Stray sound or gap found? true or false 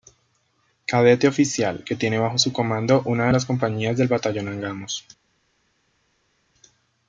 false